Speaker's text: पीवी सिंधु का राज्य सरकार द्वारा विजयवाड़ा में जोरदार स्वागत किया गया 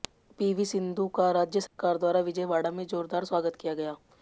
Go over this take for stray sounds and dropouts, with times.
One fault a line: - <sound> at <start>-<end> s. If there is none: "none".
- dropout at 1.7-1.8 s